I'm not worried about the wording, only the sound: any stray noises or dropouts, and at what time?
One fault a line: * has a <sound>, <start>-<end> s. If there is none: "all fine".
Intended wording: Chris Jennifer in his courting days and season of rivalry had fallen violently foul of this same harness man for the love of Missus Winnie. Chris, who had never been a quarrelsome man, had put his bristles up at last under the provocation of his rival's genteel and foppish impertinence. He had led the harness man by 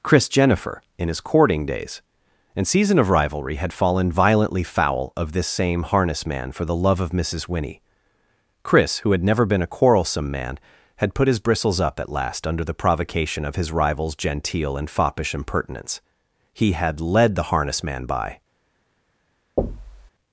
* has a thud, 19.6-20.1 s